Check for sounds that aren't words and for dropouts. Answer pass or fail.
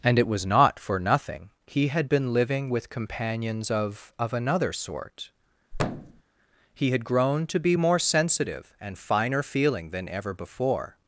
fail